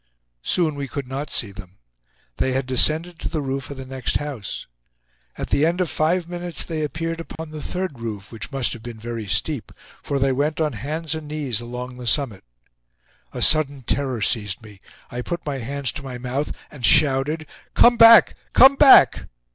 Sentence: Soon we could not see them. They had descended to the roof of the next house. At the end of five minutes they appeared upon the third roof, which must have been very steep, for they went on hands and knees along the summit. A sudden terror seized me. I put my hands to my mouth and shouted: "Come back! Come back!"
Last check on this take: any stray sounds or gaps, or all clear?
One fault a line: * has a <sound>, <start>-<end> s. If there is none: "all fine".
* has a dropout, 7.4-7.4 s